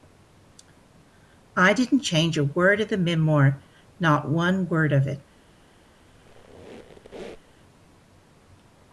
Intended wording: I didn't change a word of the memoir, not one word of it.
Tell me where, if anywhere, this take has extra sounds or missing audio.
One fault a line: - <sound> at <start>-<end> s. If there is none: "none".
- squeak at 6.1-7.6 s